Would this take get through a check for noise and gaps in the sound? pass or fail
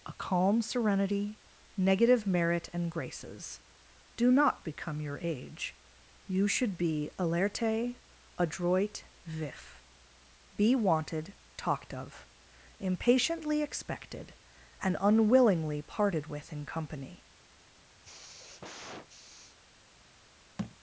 fail